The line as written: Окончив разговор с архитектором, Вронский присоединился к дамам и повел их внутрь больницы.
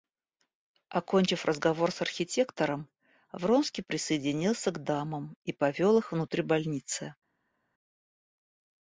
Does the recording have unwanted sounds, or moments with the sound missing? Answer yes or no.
no